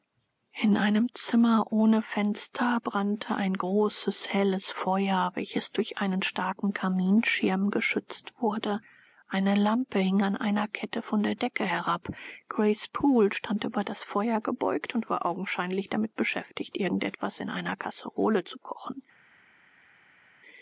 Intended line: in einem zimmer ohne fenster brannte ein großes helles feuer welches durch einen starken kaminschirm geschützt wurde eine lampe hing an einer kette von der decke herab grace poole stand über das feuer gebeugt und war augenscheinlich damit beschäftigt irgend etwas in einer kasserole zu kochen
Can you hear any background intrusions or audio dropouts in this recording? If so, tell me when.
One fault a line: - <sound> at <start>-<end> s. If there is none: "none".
none